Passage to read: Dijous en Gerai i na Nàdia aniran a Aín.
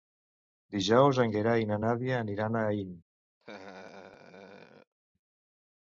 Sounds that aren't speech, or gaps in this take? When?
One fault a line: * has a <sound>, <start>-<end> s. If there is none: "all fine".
* has a laugh, 3.4-4.9 s